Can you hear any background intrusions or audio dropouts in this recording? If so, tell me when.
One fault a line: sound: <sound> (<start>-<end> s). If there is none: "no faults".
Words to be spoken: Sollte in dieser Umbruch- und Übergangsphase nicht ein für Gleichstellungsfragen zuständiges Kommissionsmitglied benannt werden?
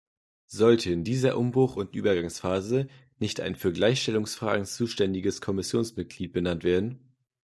no faults